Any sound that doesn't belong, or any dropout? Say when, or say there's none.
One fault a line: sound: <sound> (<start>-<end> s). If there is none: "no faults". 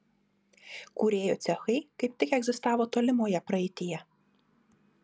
no faults